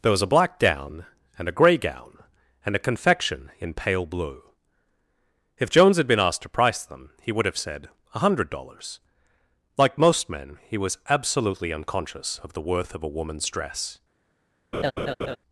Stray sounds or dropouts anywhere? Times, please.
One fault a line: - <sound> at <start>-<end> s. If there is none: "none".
- laugh at 14.7-15.4 s